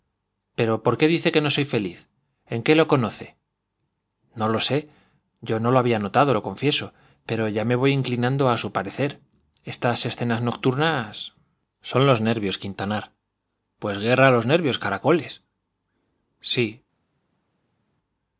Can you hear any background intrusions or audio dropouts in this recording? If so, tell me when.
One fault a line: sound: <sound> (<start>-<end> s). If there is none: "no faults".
no faults